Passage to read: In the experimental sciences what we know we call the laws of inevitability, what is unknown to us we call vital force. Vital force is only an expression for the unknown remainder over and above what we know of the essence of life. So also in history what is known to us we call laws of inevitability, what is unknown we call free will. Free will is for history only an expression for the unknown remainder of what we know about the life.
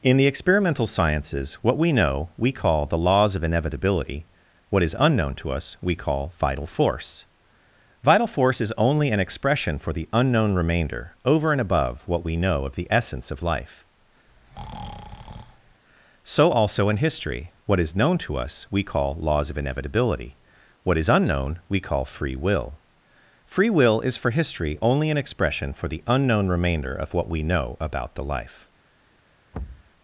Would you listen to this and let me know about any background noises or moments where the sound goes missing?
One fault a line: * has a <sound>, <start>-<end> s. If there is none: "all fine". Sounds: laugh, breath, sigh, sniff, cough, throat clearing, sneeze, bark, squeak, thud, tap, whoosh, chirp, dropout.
* has a breath, 14.3-15.8 s
* has a thud, 29.5-29.9 s